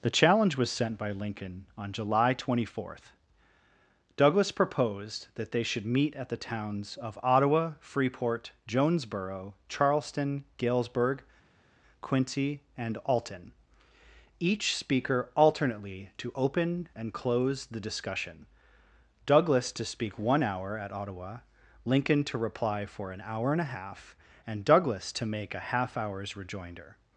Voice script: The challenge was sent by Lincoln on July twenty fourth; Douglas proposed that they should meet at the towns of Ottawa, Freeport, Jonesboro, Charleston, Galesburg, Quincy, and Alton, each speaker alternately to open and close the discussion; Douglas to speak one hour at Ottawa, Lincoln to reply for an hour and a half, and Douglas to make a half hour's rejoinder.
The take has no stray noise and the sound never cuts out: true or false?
true